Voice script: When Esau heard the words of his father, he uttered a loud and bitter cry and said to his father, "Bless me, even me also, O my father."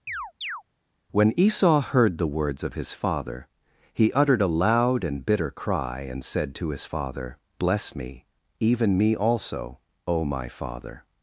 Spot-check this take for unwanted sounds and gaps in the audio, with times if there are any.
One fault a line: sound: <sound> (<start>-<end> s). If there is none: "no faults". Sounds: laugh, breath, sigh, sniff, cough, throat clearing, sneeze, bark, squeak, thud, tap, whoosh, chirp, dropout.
sound: chirp (0.1-0.6 s)